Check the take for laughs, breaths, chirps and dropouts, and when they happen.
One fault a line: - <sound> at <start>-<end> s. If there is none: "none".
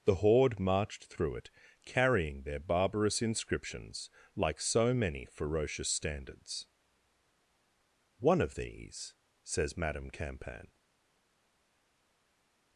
none